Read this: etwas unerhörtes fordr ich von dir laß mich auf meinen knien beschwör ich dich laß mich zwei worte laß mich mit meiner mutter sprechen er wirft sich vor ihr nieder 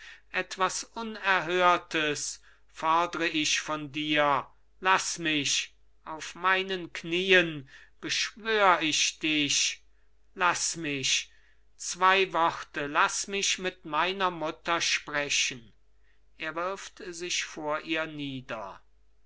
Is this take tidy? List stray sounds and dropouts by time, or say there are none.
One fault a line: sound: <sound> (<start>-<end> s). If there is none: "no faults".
no faults